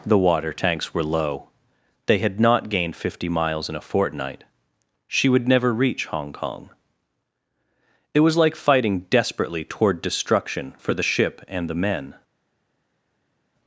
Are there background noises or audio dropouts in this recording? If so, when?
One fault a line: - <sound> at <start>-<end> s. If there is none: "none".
none